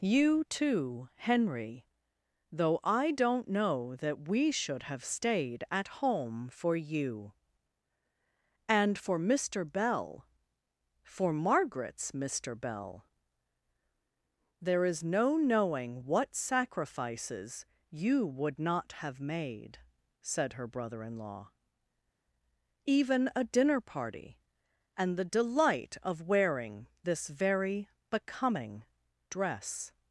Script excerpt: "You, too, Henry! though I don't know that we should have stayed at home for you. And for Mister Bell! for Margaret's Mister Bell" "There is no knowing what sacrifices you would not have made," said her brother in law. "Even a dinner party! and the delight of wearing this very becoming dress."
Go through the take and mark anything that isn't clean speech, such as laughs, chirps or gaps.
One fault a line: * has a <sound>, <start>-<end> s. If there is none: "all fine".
all fine